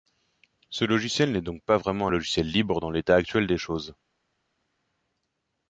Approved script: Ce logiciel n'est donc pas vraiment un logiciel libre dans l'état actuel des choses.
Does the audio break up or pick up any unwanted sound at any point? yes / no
no